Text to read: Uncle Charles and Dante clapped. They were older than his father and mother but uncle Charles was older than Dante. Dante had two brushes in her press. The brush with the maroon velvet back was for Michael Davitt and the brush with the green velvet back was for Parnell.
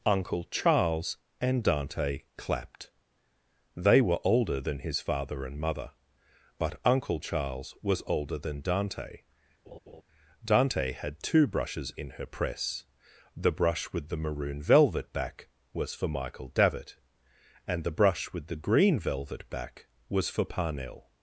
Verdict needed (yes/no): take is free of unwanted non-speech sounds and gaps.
no